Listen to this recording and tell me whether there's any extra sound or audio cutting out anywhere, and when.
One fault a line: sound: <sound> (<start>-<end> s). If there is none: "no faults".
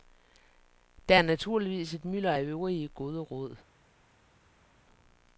no faults